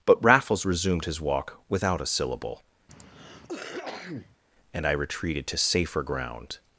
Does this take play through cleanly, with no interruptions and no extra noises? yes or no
no